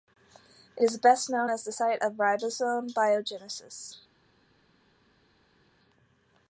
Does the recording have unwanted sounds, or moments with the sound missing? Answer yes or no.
no